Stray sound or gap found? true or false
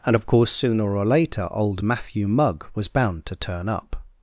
false